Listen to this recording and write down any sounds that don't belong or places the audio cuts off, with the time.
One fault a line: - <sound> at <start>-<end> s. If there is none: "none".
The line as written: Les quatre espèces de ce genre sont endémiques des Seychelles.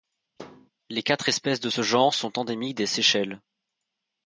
- thud at 0.4-0.7 s